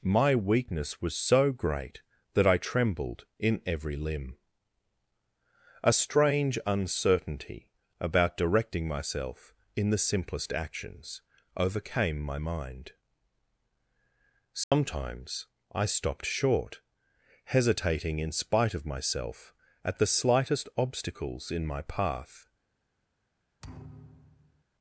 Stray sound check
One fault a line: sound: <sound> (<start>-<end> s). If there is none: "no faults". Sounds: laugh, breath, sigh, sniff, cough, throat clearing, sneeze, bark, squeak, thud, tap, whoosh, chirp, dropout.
sound: dropout (14.6-14.7 s)
sound: thud (23.6-24.6 s)